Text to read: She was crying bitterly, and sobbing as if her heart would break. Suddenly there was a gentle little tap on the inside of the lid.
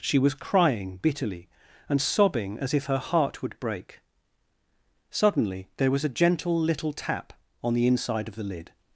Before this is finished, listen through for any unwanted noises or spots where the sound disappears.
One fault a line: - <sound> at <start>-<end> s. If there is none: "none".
none